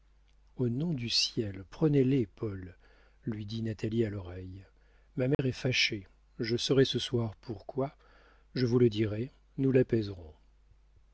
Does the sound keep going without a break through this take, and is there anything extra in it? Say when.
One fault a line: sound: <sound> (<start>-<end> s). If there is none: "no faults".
sound: dropout (5.3-5.4 s)